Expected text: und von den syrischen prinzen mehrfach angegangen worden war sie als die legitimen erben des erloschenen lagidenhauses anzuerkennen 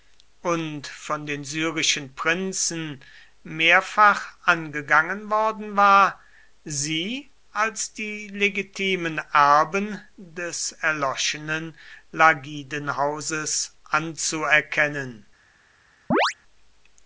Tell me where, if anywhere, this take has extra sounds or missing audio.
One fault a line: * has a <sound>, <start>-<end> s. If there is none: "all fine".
* has a chirp, 16.1-16.3 s